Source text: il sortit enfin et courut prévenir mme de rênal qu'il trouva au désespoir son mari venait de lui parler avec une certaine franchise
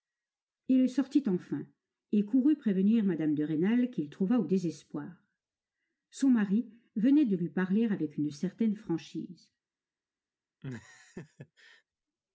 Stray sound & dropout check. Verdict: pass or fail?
fail